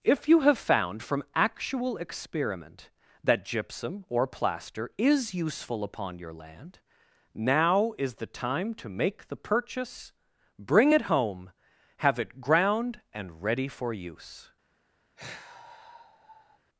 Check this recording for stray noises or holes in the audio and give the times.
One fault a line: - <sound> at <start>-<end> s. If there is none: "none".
- sigh at 15.2-16.6 s